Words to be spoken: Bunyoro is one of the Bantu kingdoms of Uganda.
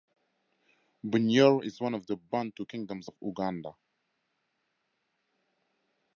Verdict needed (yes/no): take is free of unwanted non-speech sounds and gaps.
yes